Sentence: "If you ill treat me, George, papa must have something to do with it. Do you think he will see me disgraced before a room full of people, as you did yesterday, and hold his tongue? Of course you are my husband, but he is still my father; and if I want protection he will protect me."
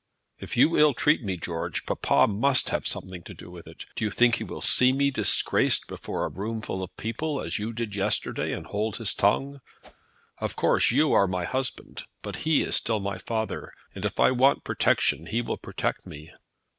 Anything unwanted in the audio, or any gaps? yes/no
yes